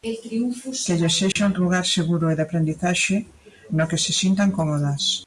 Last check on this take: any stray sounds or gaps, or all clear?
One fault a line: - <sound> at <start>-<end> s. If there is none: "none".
- dropout at 1.3-1.4 s